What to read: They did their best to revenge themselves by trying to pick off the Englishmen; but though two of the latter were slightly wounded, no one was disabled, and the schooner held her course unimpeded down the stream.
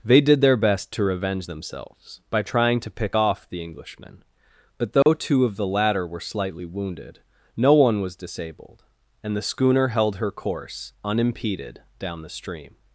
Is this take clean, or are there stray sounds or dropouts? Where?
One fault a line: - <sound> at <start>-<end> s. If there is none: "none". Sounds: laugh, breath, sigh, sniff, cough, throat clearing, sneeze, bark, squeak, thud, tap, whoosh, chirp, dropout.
- dropout at 5.0-5.1 s